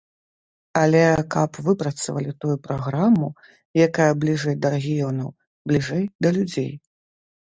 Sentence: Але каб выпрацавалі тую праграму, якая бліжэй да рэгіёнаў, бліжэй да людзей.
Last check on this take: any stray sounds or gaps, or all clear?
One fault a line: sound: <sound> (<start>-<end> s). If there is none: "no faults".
no faults